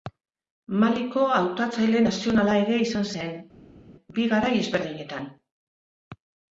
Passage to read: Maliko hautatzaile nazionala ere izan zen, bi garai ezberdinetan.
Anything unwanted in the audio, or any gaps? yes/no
no